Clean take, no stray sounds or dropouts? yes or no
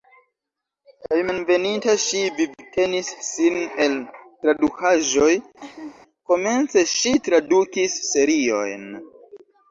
no